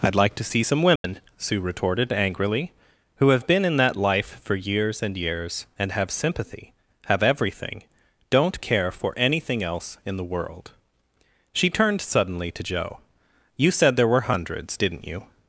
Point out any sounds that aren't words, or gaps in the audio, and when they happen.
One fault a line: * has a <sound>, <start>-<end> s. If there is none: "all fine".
* has a dropout, 1.0-1.0 s